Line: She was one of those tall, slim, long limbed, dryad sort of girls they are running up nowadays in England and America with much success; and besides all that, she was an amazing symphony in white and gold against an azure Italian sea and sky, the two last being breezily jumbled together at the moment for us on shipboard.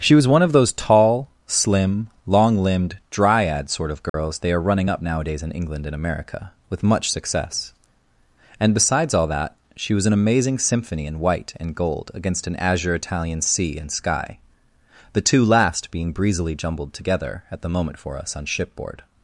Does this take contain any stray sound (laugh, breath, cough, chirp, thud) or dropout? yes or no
yes